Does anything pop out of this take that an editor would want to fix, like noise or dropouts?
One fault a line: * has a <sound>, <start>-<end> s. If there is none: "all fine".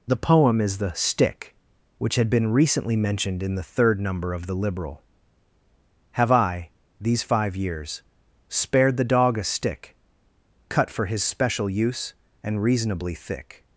all fine